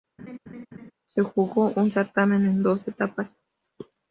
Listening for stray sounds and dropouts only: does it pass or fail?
fail